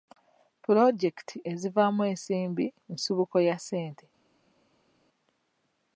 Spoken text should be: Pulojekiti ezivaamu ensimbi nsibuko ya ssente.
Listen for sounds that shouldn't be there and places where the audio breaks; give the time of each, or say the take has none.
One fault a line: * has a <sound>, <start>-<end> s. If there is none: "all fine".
all fine